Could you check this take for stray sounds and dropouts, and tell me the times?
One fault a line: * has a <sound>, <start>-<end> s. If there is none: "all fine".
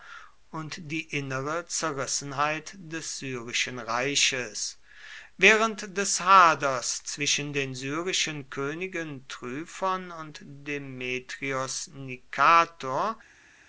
all fine